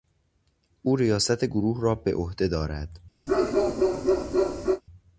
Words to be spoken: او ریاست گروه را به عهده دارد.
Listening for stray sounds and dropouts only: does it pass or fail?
fail